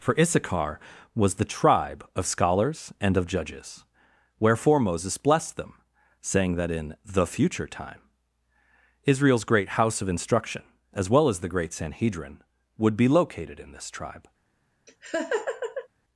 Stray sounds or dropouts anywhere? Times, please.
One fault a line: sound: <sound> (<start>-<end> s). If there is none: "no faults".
sound: laugh (14.9-15.9 s)